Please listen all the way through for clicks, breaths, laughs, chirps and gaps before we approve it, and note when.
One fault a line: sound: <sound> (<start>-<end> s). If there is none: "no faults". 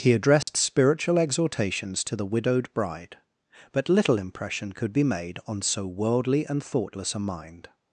sound: dropout (0.4-0.5 s)